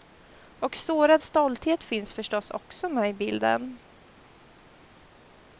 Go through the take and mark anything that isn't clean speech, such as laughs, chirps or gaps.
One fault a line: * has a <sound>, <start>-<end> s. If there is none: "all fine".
all fine